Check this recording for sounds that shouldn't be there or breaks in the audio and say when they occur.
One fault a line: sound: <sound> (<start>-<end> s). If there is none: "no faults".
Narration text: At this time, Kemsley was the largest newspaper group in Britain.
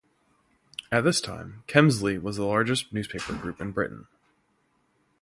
no faults